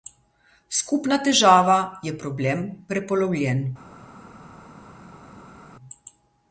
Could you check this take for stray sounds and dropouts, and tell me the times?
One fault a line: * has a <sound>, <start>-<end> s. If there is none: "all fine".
all fine